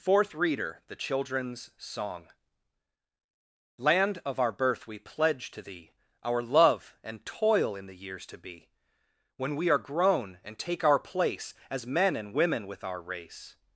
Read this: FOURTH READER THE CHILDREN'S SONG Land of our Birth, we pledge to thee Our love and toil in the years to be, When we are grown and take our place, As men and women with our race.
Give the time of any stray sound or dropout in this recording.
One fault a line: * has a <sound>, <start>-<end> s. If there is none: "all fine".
all fine